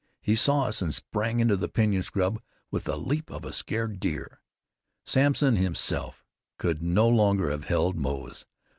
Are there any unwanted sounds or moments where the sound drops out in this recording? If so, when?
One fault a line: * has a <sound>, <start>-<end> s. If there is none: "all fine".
all fine